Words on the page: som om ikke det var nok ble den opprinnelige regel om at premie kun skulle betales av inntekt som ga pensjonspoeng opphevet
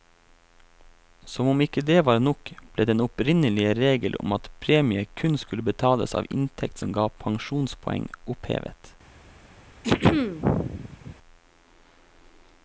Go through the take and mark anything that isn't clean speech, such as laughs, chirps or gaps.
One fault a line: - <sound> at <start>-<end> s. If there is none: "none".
- throat clearing at 9.8-11.2 s